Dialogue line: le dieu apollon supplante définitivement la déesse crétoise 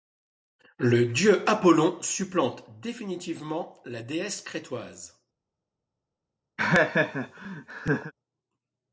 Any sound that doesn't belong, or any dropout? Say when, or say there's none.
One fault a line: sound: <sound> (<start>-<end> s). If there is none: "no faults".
sound: laugh (6.6-8.1 s)